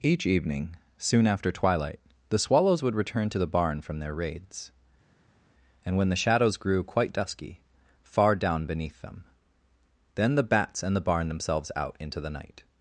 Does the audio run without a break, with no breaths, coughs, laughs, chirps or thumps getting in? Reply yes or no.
yes